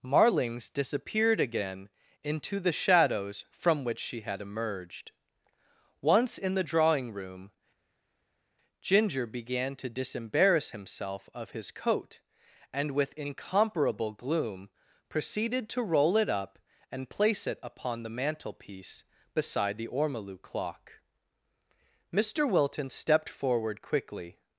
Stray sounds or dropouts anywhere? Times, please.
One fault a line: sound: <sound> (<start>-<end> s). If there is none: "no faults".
no faults